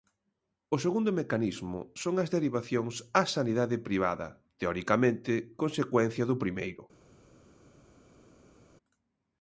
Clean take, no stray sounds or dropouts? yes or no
yes